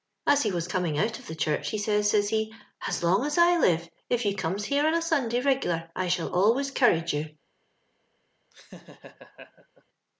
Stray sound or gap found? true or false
true